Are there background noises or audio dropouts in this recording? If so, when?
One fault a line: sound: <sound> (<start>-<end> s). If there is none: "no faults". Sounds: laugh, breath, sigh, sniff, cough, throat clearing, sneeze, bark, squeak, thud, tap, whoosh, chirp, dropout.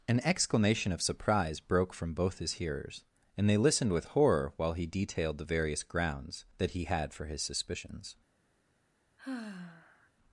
sound: sigh (9.2-10.1 s)